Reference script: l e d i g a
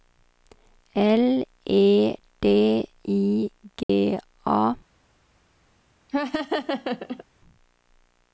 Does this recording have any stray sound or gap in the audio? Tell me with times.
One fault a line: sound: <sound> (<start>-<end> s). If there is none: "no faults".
sound: dropout (3.8-3.9 s)
sound: laugh (6.1-7.2 s)